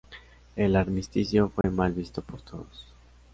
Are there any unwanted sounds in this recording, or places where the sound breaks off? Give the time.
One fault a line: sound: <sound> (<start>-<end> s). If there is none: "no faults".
sound: dropout (1.6-1.6 s)